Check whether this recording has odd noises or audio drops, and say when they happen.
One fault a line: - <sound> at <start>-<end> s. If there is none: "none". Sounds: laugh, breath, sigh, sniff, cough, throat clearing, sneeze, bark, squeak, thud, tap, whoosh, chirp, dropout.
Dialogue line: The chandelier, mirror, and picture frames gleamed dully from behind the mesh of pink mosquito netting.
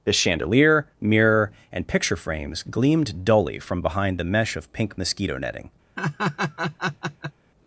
- laugh at 6.0-7.3 s